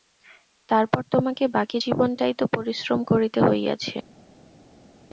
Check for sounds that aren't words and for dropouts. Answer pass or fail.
pass